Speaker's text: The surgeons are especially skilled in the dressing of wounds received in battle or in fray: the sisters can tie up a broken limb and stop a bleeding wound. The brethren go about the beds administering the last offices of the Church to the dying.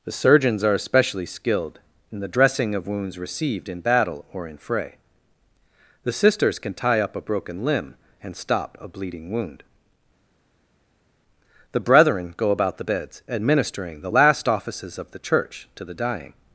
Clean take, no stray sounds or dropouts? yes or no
yes